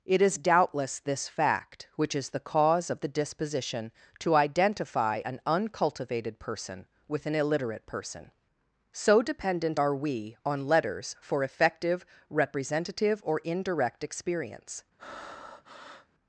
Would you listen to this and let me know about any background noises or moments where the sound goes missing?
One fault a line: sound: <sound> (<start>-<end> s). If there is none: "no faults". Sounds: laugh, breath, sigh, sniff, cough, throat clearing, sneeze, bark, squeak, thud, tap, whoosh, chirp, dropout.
sound: breath (15.0-16.1 s)